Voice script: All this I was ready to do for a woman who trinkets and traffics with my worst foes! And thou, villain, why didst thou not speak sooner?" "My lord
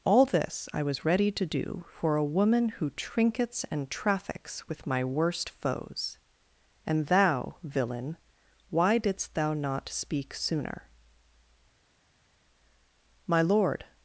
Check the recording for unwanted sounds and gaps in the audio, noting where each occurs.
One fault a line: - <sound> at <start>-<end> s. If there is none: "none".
none